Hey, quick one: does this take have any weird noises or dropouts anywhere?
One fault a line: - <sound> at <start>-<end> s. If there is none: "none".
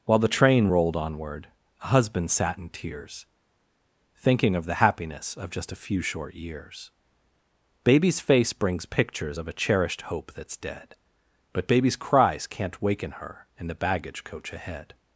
none